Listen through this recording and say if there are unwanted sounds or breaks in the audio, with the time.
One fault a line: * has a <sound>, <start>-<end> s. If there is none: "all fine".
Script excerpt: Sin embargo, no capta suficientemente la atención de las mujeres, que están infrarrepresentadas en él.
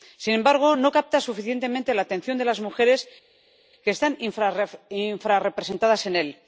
all fine